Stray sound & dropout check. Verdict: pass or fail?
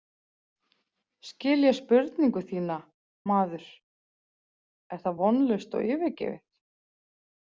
pass